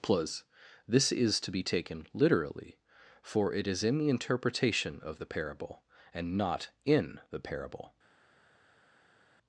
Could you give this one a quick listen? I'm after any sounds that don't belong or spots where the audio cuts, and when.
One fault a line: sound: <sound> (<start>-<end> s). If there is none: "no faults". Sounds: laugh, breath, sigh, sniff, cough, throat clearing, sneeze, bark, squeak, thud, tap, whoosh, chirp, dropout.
no faults